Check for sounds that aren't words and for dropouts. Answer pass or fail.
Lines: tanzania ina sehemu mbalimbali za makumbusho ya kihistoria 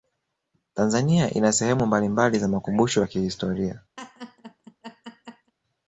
fail